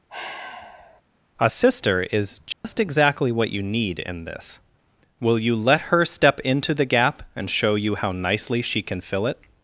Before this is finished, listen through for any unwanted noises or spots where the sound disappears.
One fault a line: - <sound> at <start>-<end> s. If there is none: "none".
- sigh at 0.1-1.0 s
- dropout at 2.5-2.6 s